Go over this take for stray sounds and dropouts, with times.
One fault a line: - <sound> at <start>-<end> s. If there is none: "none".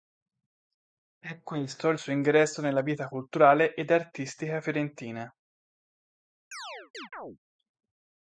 - chirp at 6.5-7.4 s